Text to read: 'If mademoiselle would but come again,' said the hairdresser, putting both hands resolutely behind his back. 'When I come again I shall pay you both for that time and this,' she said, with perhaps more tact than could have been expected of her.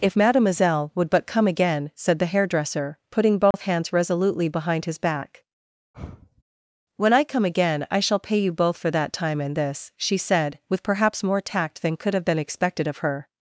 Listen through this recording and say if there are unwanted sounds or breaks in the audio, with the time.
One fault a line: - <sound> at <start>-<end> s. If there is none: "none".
- dropout at 3.5-3.5 s
- sigh at 5.9-6.4 s